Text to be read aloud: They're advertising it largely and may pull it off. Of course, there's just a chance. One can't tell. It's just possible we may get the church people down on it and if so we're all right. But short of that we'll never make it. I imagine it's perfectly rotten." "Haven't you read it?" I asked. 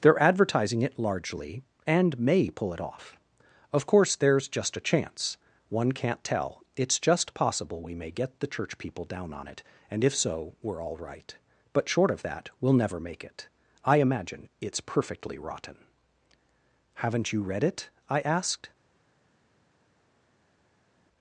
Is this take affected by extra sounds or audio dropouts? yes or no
no